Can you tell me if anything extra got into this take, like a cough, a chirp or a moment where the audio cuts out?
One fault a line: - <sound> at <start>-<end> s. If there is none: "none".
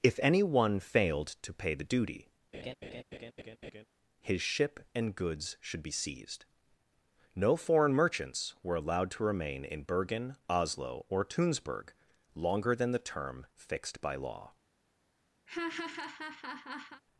- laugh at 2.5-3.8 s
- laugh at 15.5-17.0 s